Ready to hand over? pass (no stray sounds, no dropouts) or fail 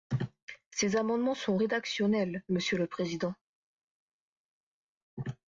pass